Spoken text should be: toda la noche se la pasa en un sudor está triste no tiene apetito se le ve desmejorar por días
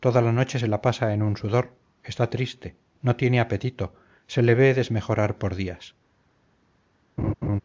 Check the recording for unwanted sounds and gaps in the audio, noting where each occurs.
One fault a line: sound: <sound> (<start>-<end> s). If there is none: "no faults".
sound: laugh (7.2-7.6 s)